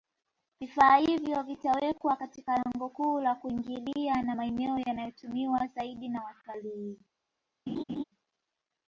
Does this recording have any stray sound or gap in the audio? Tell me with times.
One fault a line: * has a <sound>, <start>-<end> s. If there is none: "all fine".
* has a laugh, 7.7-8.0 s